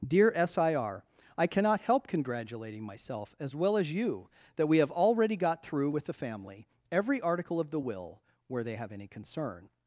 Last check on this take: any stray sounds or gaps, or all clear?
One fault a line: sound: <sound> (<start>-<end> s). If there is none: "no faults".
no faults